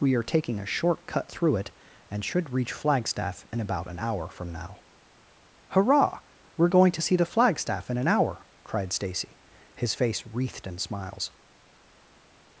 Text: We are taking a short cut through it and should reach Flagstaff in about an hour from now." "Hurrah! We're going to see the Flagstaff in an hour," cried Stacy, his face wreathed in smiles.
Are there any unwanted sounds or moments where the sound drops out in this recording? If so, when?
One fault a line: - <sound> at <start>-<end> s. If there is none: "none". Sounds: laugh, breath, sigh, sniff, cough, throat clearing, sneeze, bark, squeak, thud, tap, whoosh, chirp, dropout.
none